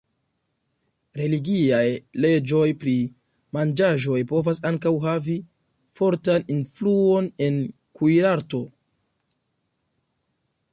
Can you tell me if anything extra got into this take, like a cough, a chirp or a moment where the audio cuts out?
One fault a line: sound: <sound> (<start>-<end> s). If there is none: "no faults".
no faults